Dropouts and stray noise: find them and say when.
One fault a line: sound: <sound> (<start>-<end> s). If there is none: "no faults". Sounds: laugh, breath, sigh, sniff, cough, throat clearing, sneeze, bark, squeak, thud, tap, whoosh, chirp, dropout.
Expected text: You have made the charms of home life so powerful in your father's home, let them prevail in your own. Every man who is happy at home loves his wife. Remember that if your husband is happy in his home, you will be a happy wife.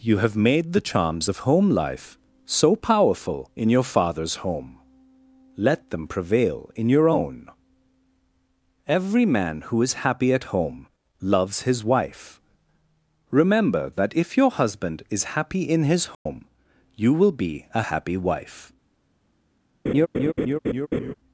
sound: dropout (16.1-16.3 s)
sound: laugh (19.9-21.1 s)